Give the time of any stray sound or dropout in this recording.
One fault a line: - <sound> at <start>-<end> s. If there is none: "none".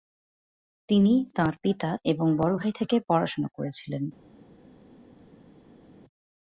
none